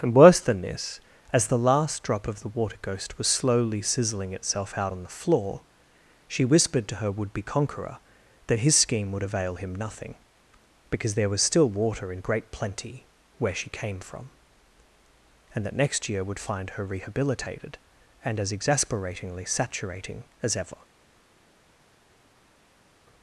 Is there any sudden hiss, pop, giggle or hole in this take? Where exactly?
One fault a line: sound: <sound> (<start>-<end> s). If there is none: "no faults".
no faults